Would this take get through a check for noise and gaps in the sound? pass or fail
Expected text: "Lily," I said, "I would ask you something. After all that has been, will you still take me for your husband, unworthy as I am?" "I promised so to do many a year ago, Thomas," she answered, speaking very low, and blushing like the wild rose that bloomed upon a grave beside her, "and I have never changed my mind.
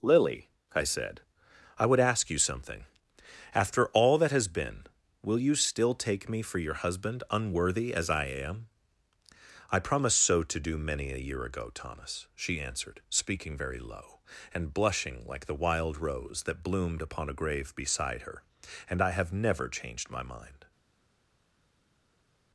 pass